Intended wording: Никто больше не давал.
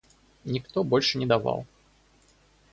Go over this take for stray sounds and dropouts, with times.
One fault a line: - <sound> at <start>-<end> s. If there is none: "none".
none